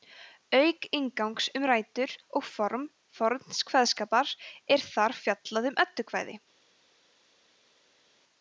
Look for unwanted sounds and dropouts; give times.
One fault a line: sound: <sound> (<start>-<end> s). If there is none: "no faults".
no faults